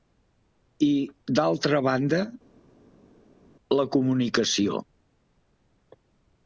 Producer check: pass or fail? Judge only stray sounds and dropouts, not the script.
pass